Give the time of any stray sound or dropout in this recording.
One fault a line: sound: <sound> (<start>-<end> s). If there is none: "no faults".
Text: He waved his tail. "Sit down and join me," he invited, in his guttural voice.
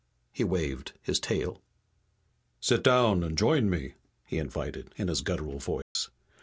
sound: dropout (5.8-6.0 s)